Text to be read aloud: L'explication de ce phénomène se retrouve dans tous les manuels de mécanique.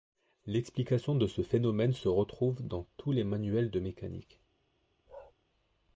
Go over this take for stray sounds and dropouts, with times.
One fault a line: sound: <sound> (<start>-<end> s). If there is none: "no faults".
sound: bark (5.1-5.3 s)